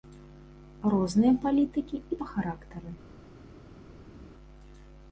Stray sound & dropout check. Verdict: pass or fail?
pass